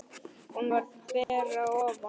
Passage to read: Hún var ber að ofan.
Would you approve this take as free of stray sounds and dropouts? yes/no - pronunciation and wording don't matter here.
no